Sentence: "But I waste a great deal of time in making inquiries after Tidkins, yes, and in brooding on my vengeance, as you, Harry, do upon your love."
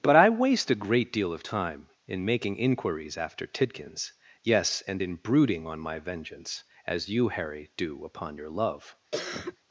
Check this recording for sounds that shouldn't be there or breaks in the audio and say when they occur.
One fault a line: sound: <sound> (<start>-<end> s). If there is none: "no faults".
sound: cough (9.1-9.6 s)